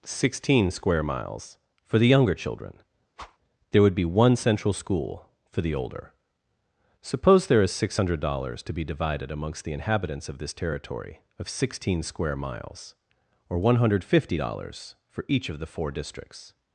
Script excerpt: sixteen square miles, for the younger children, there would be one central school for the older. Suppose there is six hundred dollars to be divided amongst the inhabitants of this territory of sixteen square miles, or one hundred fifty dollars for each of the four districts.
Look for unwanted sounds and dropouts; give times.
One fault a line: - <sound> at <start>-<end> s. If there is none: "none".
- whoosh at 3.2-3.4 s